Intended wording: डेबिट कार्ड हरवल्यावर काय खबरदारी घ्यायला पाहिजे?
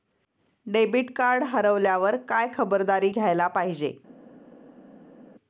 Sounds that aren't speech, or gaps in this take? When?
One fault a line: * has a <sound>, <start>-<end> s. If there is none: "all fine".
all fine